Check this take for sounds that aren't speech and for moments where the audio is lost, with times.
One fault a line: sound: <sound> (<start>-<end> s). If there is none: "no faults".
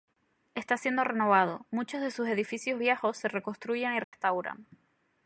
sound: dropout (4.0-4.1 s)